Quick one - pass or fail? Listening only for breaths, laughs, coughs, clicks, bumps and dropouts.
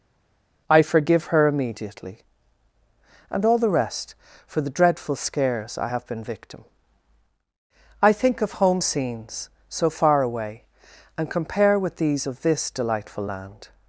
pass